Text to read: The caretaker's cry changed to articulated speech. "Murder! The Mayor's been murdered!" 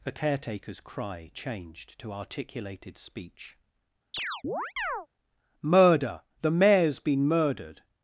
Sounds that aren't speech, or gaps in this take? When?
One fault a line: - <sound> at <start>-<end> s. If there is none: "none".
- chirp at 4.1-5.1 s